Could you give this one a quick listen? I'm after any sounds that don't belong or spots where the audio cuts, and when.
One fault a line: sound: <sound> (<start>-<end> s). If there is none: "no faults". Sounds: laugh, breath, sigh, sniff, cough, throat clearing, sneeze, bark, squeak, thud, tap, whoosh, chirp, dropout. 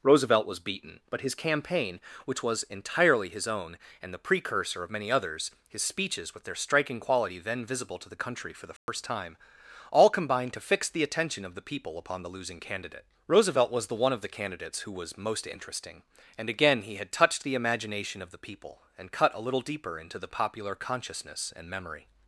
sound: dropout (8.8-8.9 s)